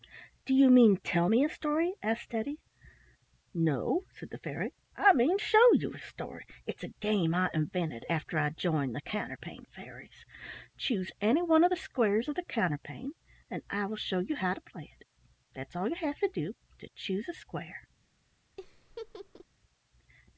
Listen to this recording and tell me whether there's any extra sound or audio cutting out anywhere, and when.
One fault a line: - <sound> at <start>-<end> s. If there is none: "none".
- laugh at 18.6-19.5 s